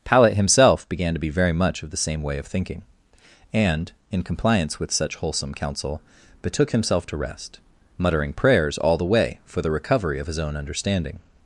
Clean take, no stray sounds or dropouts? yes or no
yes